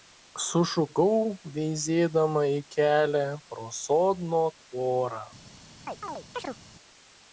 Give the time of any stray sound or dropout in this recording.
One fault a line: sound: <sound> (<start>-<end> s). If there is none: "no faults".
sound: chirp (5.9-6.6 s)